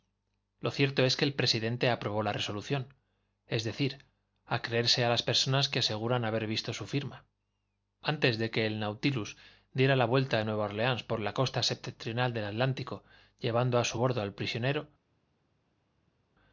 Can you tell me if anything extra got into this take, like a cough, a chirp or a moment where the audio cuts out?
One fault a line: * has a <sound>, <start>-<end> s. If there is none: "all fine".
all fine